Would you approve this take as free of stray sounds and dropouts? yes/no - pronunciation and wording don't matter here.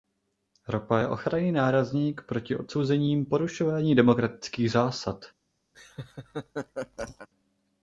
no